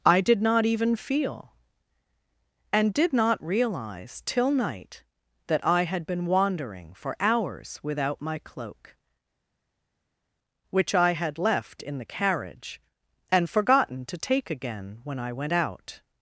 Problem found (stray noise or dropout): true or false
false